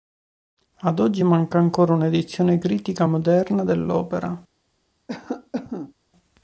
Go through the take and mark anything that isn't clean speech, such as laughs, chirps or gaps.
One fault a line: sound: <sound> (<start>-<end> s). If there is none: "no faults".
sound: cough (5.1-5.9 s)